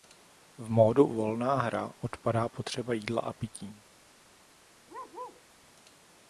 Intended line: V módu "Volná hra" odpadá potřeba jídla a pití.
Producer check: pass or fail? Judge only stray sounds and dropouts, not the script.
fail